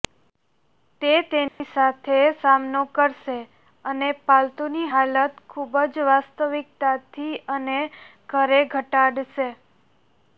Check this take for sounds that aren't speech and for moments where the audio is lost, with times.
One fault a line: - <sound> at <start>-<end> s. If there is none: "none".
- dropout at 1.5-1.6 s